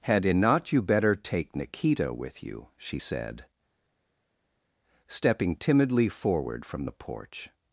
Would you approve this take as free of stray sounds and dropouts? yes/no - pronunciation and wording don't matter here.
yes